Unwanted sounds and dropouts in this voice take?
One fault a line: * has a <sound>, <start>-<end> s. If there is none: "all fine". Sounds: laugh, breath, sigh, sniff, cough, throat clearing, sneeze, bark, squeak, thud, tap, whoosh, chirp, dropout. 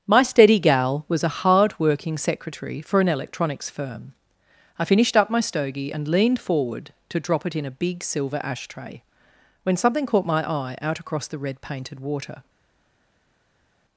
all fine